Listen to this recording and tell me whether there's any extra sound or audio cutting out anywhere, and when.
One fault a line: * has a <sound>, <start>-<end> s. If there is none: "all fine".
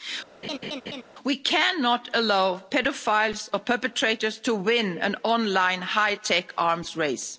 * has a laugh, 0.4-1.0 s